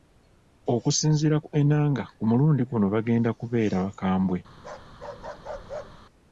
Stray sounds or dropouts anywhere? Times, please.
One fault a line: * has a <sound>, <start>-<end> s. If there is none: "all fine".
* has a bark, 4.6-6.1 s